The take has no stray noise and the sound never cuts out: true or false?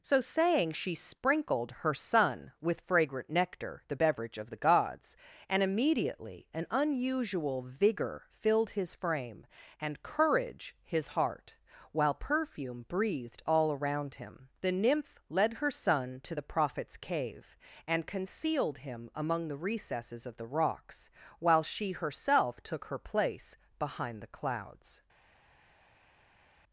true